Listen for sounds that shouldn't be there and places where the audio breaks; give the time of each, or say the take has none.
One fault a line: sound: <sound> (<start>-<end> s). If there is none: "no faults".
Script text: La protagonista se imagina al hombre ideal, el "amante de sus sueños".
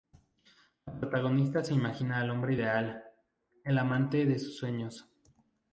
no faults